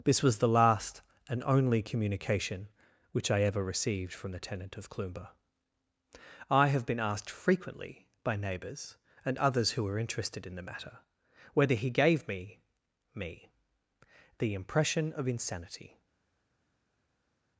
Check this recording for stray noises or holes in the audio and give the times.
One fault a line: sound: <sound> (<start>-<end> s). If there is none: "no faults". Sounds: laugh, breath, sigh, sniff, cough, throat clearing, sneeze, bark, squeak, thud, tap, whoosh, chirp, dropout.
no faults